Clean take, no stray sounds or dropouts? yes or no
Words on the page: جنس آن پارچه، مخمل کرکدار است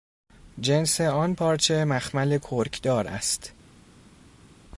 yes